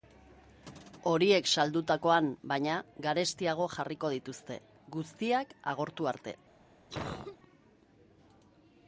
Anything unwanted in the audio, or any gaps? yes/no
yes